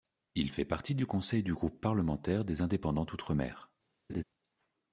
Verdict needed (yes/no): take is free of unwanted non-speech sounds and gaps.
no